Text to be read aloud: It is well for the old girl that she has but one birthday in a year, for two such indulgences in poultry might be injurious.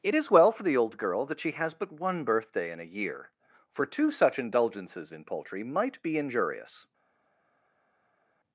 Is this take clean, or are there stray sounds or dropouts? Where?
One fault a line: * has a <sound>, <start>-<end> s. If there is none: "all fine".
all fine